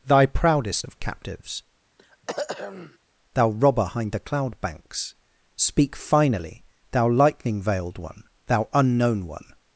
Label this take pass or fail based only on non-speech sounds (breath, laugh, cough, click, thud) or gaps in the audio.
fail